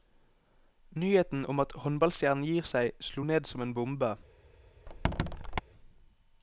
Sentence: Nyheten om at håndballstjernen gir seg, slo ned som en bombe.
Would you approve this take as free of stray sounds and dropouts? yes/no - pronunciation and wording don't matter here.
no